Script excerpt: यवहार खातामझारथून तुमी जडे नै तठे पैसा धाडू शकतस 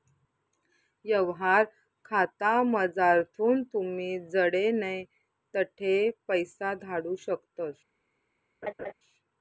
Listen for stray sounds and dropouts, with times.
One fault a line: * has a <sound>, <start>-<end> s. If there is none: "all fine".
* has a laugh, 8.6-8.9 s